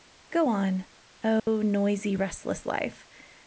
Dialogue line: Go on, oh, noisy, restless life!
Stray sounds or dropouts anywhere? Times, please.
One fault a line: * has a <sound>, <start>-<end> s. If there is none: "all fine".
* has a dropout, 1.4-1.5 s